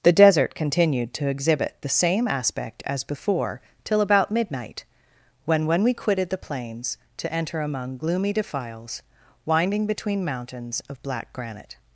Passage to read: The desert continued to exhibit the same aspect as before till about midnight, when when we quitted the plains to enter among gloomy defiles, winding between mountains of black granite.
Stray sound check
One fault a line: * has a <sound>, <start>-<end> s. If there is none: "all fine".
all fine